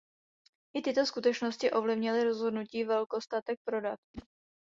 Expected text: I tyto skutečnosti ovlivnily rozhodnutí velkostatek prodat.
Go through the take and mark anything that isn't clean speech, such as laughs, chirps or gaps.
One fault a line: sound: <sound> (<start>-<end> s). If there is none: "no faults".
sound: whoosh (4.1-4.3 s)